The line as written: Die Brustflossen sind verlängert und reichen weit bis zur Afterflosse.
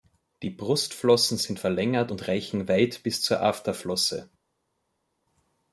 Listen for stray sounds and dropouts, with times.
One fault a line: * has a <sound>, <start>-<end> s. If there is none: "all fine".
all fine